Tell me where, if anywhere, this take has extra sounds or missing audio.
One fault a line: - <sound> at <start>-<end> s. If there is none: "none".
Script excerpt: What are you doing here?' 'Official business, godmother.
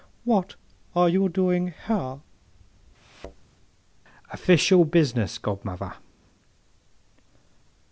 - thud at 2.9-3.4 s